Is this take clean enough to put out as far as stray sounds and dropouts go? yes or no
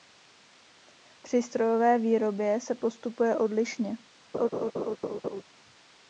no